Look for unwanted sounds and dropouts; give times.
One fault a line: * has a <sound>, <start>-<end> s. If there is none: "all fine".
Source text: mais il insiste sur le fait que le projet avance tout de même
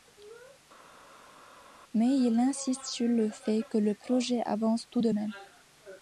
all fine